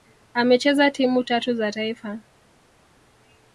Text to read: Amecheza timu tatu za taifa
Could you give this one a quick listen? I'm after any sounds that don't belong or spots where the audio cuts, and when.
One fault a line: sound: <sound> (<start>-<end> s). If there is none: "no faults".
no faults